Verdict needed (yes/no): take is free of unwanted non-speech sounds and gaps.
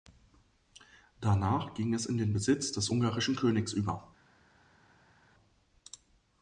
yes